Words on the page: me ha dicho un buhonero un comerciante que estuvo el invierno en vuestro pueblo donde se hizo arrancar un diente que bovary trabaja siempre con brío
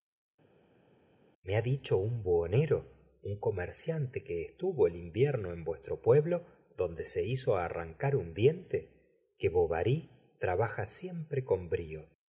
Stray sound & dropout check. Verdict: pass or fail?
pass